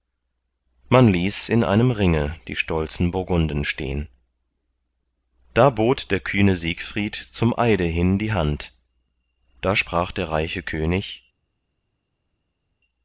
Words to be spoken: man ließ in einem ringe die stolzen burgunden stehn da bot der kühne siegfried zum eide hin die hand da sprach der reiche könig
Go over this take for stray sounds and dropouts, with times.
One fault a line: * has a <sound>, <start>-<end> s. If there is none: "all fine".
all fine